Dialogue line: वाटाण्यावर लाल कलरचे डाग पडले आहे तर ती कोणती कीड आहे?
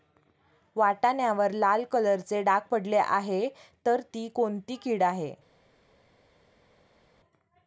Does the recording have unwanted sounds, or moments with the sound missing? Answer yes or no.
no